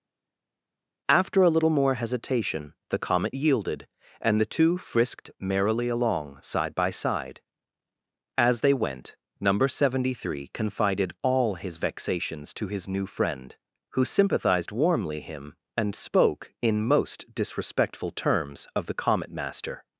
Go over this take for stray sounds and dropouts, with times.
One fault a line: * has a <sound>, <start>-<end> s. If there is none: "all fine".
all fine